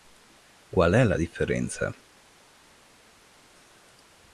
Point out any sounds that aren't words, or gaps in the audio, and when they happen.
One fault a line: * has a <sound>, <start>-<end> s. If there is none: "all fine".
all fine